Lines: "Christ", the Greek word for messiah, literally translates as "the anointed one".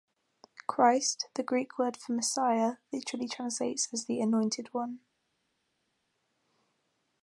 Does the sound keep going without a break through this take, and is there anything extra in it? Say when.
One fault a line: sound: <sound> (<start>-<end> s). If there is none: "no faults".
no faults